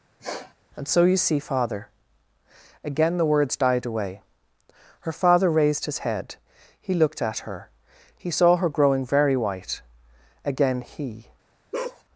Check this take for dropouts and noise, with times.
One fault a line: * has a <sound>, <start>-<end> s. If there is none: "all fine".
* has a sniff, 0.2-0.5 s
* has a bark, 11.7-12.0 s